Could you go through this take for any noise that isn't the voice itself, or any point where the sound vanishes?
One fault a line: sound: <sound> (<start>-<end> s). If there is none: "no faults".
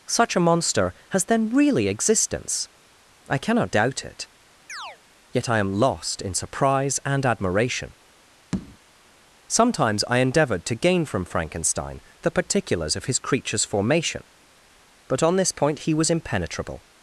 sound: chirp (4.7-5.0 s)
sound: tap (8.5-8.8 s)